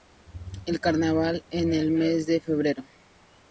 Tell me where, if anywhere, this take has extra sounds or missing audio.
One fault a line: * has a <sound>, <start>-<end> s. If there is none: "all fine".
all fine